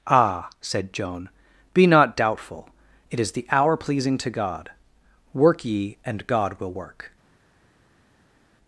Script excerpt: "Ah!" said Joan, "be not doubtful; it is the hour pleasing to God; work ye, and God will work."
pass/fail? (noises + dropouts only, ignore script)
pass